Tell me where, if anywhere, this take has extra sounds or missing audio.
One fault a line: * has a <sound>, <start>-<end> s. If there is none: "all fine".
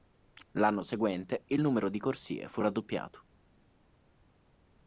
all fine